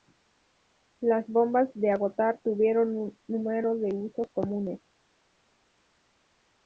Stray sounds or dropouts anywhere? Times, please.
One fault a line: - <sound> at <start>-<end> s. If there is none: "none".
none